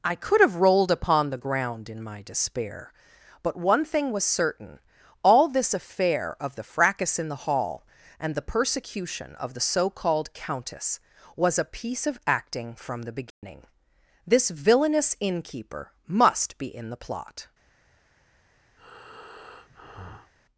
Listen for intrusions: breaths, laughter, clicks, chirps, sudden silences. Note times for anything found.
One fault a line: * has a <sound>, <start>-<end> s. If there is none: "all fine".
* has a dropout, 13.3-13.4 s
* has a breath, 18.8-20.3 s